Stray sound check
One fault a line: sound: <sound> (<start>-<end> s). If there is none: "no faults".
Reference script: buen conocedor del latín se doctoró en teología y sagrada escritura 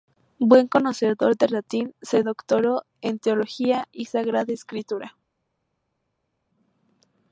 no faults